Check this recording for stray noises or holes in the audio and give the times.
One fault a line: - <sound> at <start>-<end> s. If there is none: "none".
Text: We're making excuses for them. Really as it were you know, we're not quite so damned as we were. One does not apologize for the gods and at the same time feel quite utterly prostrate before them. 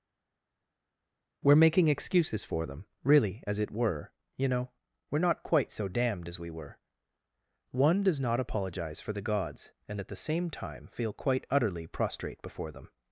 none